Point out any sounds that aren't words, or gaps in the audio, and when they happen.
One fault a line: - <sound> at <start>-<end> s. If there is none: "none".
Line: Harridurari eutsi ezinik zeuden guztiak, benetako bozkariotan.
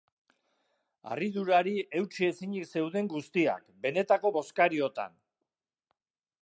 none